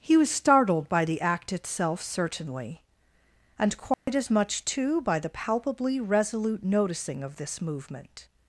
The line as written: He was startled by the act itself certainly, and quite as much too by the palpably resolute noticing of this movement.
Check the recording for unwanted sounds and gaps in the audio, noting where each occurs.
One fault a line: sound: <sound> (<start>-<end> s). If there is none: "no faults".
sound: dropout (3.9-4.1 s)